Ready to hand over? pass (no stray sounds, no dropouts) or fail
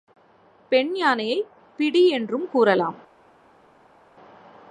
pass